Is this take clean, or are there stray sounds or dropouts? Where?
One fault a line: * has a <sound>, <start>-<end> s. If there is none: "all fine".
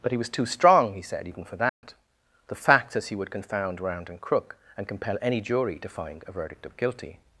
* has a dropout, 1.7-1.8 s